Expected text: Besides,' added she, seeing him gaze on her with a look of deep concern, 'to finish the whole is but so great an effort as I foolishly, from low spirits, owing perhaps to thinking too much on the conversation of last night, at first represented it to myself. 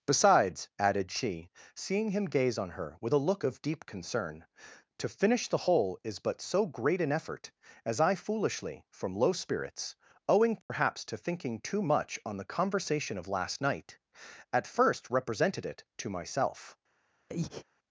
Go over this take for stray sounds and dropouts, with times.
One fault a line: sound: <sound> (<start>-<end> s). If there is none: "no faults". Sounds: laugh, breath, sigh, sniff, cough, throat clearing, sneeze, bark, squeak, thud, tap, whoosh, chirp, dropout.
sound: dropout (10.6-10.7 s)
sound: breath (17.3-17.6 s)